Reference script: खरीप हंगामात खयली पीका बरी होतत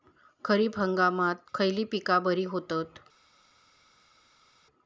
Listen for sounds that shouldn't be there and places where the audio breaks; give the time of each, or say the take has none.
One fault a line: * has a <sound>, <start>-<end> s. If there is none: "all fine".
all fine